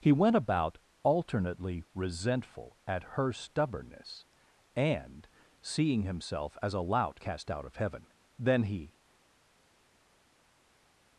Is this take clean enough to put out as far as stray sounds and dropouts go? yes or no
yes